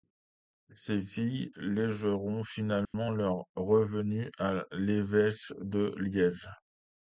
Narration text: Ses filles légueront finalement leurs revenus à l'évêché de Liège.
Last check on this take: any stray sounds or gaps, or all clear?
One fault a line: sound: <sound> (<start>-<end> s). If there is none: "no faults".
sound: dropout (2.8-2.9 s)